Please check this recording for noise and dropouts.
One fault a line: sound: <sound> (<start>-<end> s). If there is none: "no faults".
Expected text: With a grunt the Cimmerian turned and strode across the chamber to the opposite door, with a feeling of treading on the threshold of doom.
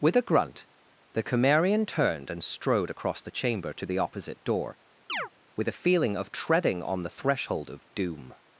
sound: chirp (5.1-5.3 s)